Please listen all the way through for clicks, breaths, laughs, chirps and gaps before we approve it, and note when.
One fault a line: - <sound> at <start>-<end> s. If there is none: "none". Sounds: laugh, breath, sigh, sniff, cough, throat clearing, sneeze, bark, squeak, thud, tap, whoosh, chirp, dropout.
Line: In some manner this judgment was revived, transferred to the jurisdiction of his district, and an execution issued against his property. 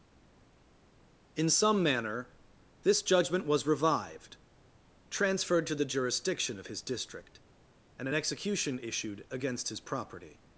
none